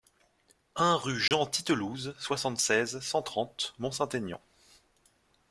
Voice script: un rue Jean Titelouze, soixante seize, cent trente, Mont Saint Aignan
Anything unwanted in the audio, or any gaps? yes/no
yes